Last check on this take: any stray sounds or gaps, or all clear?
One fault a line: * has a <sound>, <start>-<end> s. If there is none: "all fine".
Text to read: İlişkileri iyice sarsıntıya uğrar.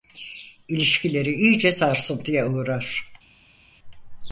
all fine